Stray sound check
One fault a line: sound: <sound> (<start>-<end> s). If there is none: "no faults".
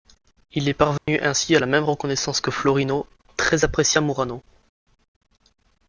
sound: dropout (1.0-1.1 s)